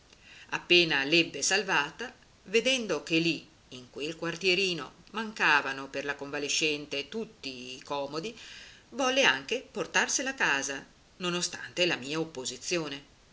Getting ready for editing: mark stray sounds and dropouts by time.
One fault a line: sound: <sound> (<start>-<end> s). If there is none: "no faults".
no faults